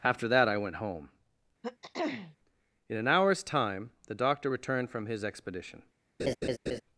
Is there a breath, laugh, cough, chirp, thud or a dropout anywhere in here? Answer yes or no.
yes